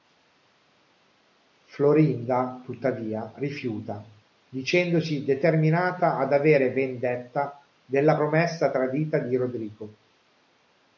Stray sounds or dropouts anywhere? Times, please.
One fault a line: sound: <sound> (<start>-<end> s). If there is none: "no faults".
no faults